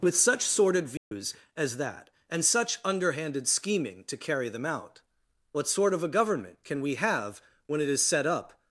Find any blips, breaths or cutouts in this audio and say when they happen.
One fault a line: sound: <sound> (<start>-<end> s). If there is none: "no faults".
sound: dropout (1.0-1.1 s)